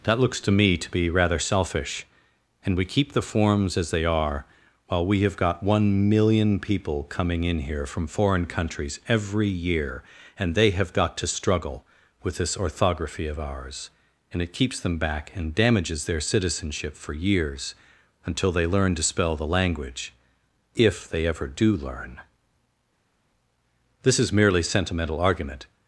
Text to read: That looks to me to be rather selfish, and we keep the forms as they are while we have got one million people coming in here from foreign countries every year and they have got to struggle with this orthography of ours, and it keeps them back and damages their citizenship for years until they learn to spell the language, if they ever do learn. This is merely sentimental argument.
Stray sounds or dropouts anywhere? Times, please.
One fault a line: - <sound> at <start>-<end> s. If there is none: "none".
none